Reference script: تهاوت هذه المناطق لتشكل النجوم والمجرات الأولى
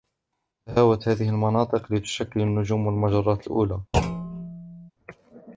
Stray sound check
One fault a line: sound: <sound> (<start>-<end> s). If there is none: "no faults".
sound: thud (3.9-4.9 s)